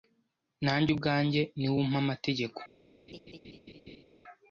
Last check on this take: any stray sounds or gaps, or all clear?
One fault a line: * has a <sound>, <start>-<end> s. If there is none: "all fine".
* has a laugh, 3.1-4.0 s